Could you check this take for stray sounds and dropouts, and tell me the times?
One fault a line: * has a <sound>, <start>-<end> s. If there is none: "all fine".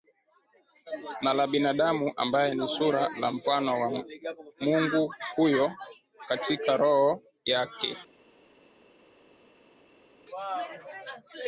all fine